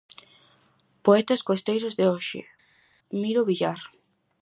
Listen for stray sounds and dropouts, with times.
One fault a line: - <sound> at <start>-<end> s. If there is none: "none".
none